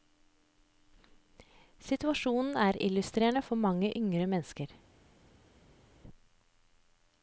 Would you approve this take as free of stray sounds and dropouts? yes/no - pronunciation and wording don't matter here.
yes